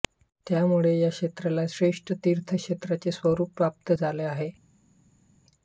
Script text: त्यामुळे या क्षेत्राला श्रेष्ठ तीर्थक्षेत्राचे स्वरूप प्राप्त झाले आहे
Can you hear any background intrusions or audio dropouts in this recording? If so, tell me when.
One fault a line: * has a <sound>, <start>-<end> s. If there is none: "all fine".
all fine